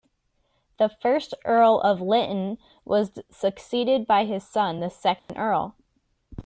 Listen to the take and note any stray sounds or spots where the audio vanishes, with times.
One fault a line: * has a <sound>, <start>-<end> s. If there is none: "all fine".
* has a dropout, 5.2-5.3 s